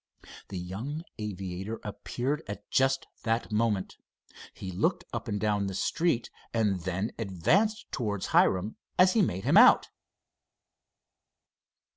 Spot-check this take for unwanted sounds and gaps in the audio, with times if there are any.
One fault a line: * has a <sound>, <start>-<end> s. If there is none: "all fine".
all fine